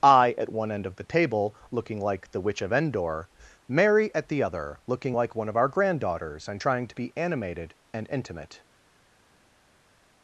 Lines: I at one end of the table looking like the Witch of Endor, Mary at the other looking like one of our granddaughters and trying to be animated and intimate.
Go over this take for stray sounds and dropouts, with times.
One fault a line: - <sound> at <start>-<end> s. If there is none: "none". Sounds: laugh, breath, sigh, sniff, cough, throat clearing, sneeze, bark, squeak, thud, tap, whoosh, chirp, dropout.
none